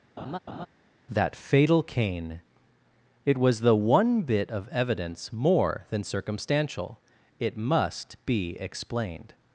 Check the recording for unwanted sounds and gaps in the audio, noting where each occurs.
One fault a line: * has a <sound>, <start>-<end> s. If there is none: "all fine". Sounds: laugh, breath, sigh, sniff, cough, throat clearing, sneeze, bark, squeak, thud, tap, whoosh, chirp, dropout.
* has a laugh, 0.2-0.7 s